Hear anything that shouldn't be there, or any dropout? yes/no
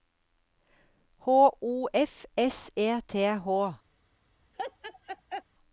yes